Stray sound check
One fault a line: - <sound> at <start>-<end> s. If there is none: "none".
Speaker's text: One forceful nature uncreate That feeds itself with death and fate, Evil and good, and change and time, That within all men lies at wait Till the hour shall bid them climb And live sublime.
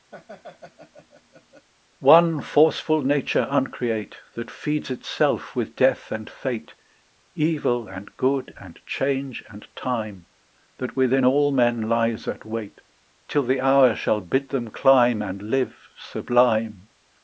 - laugh at 0.1-1.7 s